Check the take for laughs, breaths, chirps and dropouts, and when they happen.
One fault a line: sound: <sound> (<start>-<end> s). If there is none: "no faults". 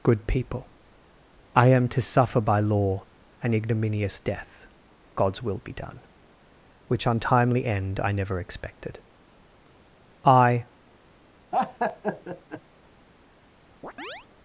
sound: laugh (11.5-12.6 s)
sound: chirp (13.8-14.3 s)